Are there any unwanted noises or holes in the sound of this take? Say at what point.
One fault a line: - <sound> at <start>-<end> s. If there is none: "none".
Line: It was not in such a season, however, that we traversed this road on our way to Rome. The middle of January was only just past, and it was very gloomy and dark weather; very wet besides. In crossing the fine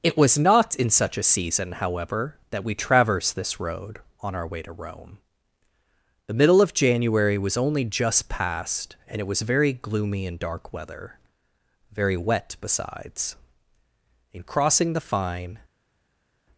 none